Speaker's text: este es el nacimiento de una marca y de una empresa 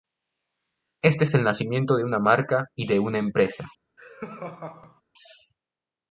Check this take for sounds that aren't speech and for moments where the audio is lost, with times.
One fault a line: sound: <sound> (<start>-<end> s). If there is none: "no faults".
sound: laugh (4.0-5.0 s)